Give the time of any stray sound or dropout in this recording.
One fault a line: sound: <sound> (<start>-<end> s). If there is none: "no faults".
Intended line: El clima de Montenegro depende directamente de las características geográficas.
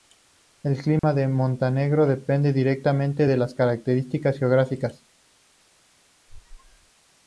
sound: dropout (1.0-1.0 s)
sound: squeak (6.3-6.9 s)